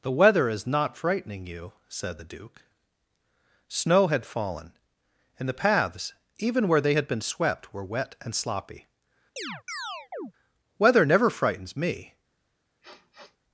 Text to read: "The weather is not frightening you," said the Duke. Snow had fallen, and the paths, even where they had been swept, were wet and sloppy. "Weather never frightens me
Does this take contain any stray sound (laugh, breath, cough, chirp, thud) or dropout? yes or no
yes